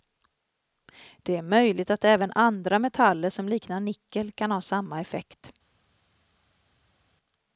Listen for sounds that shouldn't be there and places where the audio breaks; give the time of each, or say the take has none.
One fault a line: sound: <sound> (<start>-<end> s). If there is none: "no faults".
no faults